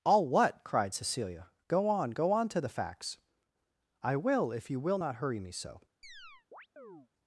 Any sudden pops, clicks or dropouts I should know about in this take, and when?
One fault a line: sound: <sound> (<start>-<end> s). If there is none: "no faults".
sound: chirp (6.0-7.1 s)